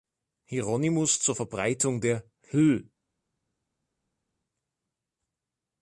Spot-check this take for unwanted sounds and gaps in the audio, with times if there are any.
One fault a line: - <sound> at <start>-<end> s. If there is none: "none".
none